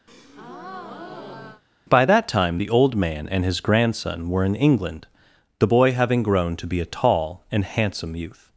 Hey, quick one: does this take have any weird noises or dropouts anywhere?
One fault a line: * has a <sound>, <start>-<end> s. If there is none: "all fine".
* has a breath, 0.1-1.6 s